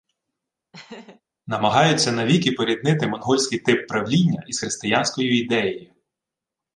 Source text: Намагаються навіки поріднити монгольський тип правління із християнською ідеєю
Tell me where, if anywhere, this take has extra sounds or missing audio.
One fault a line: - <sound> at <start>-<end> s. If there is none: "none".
- laugh at 0.7-1.2 s